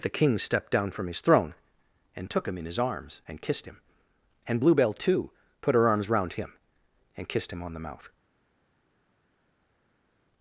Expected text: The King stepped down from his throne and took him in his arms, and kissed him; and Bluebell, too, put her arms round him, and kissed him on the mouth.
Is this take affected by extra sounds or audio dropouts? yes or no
no